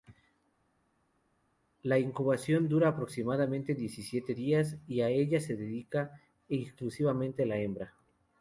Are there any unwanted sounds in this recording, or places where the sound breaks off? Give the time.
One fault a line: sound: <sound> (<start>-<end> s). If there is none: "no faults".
no faults